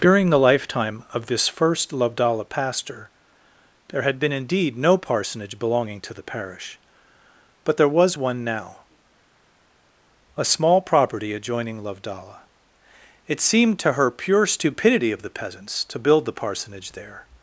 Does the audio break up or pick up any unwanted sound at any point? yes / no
no